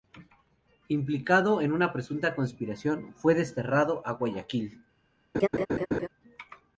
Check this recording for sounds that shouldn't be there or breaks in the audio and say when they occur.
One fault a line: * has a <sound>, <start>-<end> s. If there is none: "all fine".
* has a laugh, 5.3-6.1 s